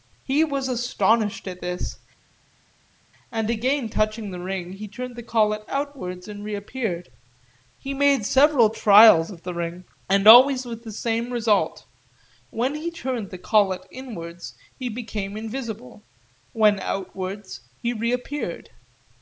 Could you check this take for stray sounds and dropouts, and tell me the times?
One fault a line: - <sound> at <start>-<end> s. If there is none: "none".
none